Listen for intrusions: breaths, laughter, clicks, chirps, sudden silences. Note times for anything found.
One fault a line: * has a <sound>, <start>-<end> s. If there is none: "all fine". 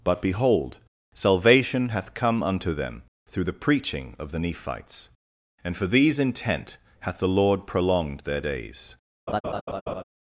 * has a laugh, 9.3-10.0 s